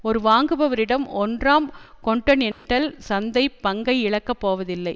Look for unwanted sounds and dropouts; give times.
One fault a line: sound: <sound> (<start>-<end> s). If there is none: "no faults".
sound: dropout (2.5-2.7 s)